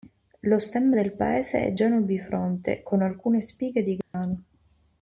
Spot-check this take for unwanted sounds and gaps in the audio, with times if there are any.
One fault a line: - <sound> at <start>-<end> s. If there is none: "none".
- dropout at 4.0-4.1 s